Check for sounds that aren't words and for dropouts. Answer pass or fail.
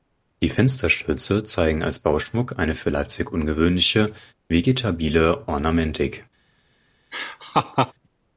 fail